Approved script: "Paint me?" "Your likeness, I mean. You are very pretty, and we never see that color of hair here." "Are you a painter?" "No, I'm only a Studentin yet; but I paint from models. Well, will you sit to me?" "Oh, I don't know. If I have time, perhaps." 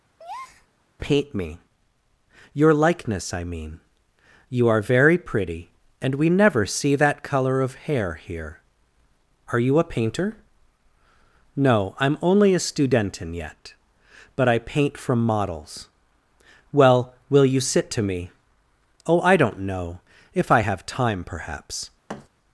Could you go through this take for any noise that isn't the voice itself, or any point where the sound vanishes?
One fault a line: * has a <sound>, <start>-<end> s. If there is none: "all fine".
* has a breath, 0.2-0.7 s
* has a thud, 22.1-22.3 s